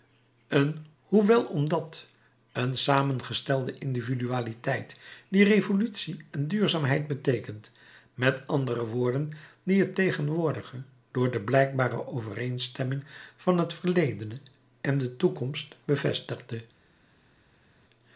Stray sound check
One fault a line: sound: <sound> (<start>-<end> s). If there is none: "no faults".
no faults